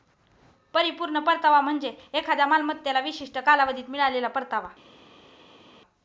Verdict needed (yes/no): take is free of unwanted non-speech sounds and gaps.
yes